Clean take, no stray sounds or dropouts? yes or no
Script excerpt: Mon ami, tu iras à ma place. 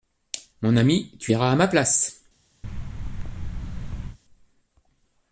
no